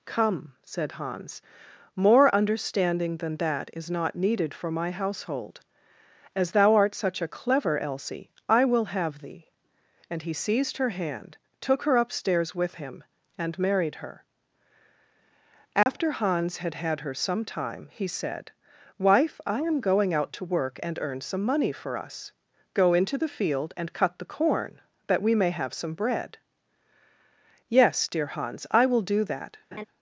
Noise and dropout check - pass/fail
fail